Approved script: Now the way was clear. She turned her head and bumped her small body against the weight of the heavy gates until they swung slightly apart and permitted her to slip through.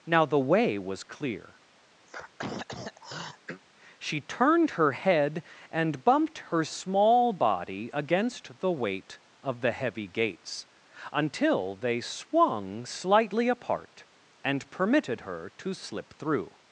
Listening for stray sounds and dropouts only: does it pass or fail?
fail